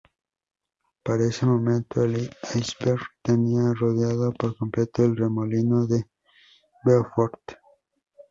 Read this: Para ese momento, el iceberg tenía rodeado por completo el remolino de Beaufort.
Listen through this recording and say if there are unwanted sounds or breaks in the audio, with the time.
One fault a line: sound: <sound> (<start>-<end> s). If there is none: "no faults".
no faults